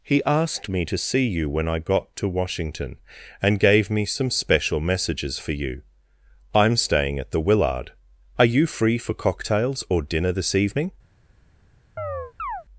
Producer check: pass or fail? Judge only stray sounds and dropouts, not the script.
fail